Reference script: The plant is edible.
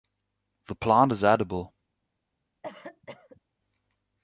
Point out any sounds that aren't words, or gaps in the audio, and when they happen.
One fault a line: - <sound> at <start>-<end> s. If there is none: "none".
- cough at 2.6-3.4 s